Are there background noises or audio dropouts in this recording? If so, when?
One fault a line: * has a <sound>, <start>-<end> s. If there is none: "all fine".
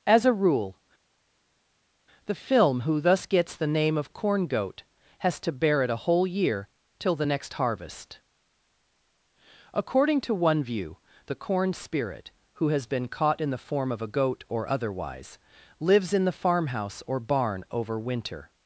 all fine